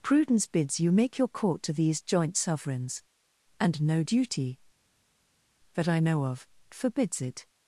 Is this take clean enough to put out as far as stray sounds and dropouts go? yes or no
yes